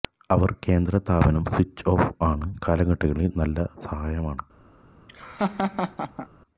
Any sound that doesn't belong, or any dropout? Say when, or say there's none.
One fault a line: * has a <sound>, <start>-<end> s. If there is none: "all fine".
* has a laugh, 5.1-6.3 s